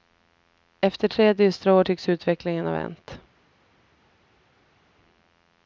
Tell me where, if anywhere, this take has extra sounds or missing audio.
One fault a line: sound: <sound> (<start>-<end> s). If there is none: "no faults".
no faults